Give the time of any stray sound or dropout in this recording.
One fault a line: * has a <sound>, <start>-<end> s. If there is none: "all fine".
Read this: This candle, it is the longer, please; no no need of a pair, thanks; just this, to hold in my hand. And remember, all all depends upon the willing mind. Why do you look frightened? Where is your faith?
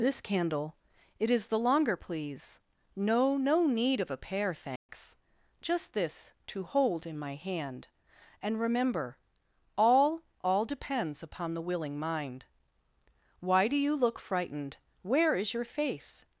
* has a dropout, 4.8-4.9 s